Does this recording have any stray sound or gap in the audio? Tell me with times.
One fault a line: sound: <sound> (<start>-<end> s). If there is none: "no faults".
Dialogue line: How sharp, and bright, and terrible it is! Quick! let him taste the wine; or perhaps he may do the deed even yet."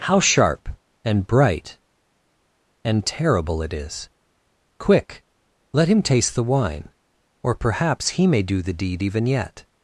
no faults